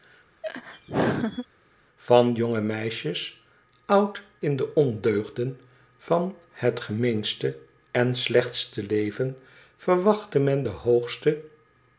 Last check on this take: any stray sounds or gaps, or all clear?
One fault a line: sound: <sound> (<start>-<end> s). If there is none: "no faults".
sound: laugh (0.4-1.5 s)